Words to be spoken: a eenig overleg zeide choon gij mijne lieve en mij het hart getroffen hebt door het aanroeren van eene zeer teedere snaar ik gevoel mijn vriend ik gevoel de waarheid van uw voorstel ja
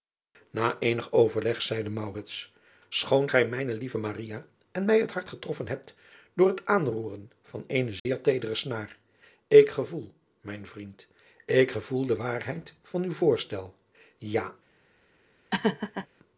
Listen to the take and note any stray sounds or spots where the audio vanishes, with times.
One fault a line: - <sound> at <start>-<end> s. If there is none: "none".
- dropout at 8.0-8.1 s
- laugh at 15.5-16.1 s